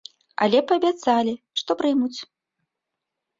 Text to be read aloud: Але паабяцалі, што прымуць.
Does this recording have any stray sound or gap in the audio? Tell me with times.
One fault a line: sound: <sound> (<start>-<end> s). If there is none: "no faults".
no faults